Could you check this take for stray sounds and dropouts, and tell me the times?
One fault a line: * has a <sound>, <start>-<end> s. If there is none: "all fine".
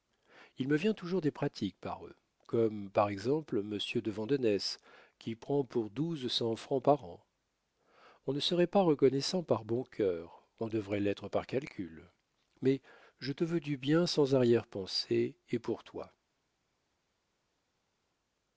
all fine